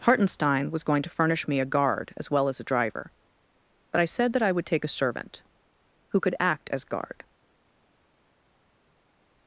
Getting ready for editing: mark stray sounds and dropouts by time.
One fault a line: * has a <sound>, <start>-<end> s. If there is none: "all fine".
all fine